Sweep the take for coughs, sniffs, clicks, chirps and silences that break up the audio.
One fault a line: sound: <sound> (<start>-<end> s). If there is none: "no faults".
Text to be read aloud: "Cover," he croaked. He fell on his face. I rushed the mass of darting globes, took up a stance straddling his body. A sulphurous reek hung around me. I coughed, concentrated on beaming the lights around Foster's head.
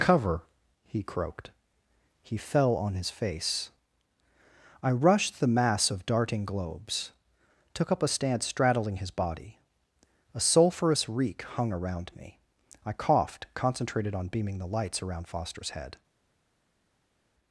no faults